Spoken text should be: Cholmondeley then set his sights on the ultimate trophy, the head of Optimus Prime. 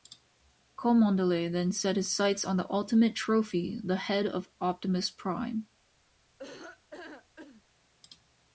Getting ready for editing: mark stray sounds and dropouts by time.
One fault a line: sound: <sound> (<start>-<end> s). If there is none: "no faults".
sound: laugh (6.4-7.6 s)